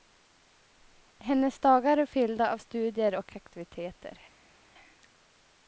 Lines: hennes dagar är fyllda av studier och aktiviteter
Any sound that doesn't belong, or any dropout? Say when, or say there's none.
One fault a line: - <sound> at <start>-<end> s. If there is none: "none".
none